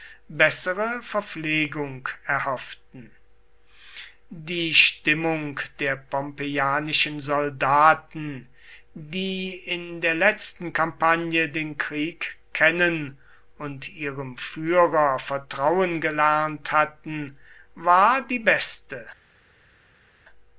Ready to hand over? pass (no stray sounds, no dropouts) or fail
pass